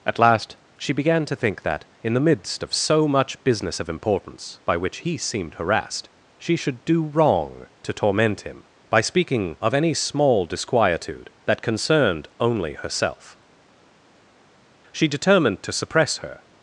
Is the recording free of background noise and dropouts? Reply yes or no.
yes